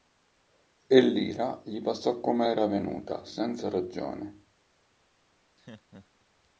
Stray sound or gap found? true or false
true